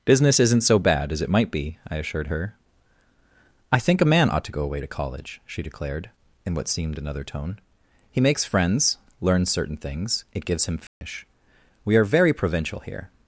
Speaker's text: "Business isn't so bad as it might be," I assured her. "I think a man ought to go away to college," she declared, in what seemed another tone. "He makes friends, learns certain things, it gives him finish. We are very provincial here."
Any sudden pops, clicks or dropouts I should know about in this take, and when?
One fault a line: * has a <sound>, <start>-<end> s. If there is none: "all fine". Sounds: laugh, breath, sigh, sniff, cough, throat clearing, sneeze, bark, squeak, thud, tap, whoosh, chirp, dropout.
* has a dropout, 10.9-11.0 s